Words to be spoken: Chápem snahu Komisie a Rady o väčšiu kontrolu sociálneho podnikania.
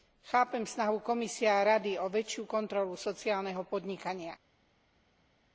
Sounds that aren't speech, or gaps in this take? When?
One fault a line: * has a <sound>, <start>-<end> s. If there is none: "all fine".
all fine